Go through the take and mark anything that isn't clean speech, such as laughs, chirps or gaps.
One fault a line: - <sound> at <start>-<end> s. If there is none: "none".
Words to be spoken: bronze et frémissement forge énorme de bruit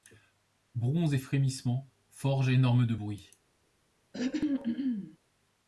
- throat clearing at 4.1-5.2 s